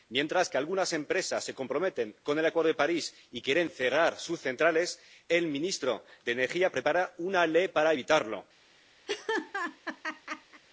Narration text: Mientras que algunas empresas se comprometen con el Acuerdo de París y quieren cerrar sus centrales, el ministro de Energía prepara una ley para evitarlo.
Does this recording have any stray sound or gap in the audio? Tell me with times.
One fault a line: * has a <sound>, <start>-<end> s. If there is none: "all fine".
* has a laugh, 9.1-10.6 s